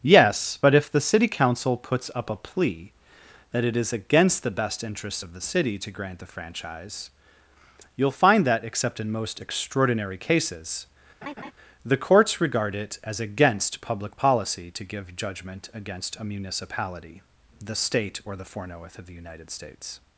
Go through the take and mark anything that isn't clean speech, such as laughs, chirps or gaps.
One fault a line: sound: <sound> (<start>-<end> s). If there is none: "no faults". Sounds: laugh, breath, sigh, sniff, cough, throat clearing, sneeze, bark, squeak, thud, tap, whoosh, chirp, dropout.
sound: laugh (11.2-11.5 s)